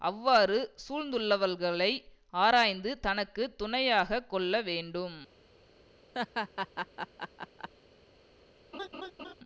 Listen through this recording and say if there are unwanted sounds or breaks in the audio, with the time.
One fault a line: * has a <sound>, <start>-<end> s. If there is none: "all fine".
* has a laugh, 6.1-7.7 s
* has a laugh, 8.7-9.3 s